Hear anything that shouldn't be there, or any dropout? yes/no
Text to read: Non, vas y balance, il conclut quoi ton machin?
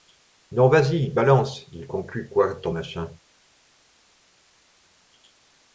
no